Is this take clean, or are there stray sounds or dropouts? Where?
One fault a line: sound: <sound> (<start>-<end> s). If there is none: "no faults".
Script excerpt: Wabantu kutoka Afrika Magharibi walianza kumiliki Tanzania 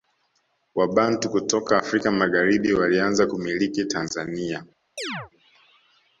sound: chirp (5.0-5.3 s)